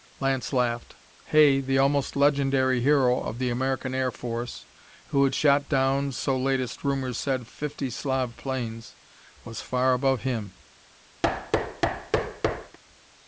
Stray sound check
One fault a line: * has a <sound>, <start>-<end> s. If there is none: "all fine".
* has a thud, 11.2-12.8 s